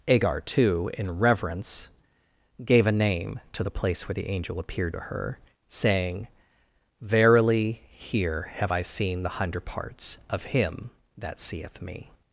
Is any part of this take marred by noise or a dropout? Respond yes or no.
no